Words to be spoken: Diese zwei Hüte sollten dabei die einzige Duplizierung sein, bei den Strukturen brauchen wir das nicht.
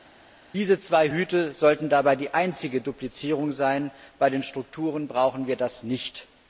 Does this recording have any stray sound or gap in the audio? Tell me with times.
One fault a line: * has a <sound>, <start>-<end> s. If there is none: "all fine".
all fine